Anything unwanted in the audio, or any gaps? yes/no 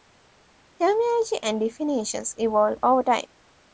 no